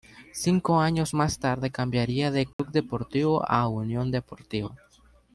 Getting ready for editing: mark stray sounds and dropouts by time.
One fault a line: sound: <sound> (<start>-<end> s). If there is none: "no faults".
sound: dropout (2.5-2.6 s)